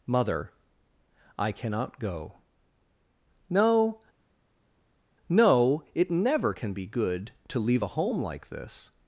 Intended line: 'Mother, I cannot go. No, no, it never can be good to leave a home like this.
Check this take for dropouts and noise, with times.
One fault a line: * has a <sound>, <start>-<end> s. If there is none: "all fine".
all fine